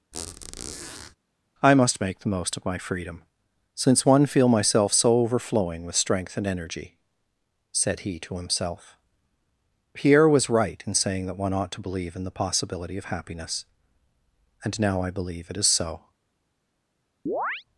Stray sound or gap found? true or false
true